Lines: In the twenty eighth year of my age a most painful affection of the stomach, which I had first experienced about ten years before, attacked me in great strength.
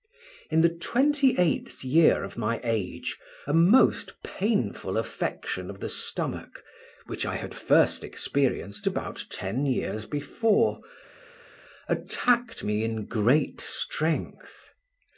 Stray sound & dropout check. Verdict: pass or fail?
pass